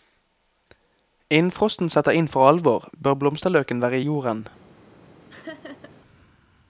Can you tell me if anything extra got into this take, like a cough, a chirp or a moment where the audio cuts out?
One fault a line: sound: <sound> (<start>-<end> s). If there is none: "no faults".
sound: laugh (5.3-6.0 s)